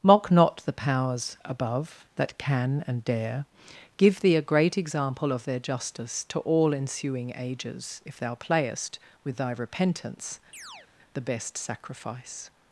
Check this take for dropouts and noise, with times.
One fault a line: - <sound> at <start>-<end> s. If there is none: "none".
- chirp at 10.5-10.9 s